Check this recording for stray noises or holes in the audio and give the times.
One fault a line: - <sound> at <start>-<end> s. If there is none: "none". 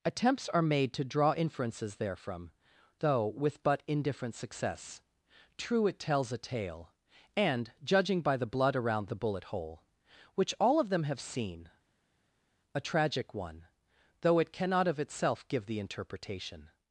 none